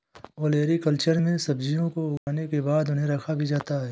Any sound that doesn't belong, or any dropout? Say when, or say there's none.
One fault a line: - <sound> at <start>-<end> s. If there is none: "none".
- dropout at 2.2-2.3 s